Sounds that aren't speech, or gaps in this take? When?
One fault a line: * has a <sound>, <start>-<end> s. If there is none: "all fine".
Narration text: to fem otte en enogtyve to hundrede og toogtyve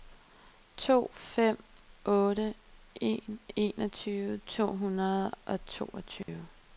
* has a dropout, 6.2-6.3 s